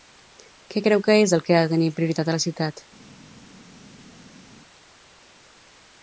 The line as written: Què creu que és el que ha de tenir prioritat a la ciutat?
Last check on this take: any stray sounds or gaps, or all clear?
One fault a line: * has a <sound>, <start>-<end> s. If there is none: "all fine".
all fine